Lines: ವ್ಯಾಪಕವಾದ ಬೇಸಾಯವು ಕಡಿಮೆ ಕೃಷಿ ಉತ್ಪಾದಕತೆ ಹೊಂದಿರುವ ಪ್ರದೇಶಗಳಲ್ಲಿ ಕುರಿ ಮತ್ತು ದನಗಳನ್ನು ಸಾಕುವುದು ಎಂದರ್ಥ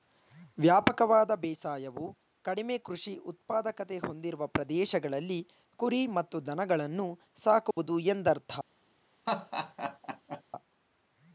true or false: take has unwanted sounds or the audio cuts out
true